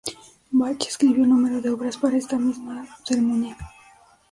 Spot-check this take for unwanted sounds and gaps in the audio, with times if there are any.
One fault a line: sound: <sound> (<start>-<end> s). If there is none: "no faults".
no faults